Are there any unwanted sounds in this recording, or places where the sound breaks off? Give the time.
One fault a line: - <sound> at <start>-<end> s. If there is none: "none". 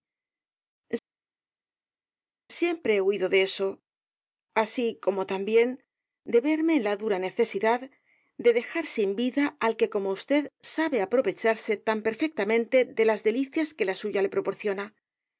none